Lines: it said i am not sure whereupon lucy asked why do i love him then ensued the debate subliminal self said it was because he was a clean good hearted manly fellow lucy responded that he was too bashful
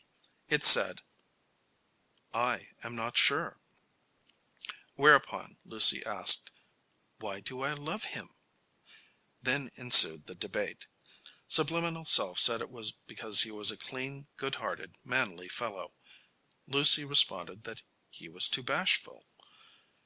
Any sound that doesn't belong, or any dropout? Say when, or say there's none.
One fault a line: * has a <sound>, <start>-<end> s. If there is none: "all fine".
all fine